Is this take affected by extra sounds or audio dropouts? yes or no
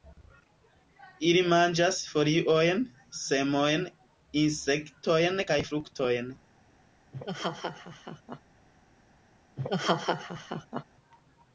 yes